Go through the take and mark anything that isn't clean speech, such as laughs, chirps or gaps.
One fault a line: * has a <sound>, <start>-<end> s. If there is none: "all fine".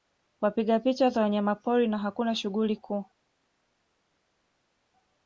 all fine